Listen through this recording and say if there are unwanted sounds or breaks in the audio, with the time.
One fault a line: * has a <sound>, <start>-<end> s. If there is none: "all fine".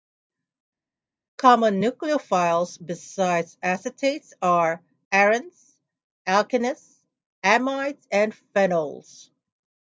all fine